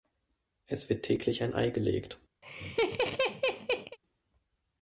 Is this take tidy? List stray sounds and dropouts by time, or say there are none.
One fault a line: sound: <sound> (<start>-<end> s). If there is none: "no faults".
sound: laugh (2.4-4.0 s)